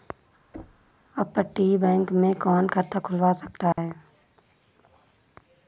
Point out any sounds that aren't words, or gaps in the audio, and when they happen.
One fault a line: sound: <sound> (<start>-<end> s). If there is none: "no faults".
sound: thud (0.5-0.9 s)
sound: dropout (3.7-3.8 s)